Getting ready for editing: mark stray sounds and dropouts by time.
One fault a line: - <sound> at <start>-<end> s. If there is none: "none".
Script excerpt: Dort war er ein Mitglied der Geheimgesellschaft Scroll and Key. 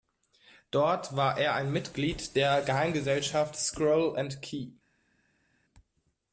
none